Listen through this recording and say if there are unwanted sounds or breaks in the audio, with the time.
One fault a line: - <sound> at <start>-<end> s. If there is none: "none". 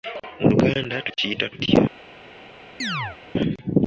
- chirp at 2.8-3.2 s